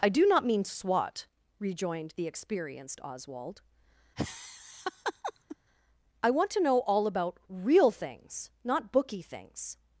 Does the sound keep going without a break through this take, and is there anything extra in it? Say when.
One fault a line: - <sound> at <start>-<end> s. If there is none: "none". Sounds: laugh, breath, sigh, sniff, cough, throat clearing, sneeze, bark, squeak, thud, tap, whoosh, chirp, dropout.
- laugh at 4.2-5.6 s